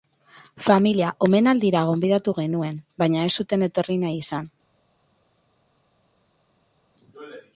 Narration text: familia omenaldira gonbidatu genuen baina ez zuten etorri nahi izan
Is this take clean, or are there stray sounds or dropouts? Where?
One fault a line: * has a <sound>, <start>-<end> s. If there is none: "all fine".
all fine